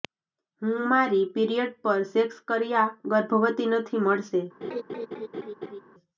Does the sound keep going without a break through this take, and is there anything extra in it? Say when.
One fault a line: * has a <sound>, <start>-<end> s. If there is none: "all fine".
* has a laugh, 4.6-5.8 s